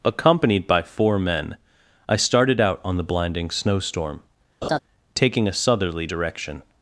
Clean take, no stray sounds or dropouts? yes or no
no